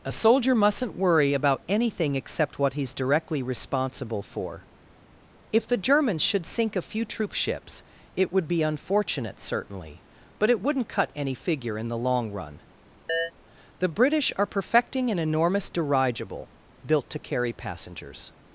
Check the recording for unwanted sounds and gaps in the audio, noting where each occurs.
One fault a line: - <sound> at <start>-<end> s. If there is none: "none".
- chirp at 13.1-13.3 s